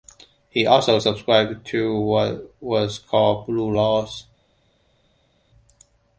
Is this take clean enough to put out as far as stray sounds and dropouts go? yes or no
yes